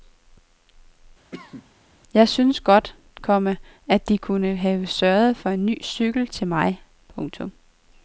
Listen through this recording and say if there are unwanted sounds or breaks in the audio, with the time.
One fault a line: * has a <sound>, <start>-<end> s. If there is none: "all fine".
* has a cough, 1.3-1.7 s